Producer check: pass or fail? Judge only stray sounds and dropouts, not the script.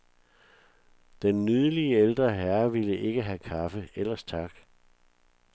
pass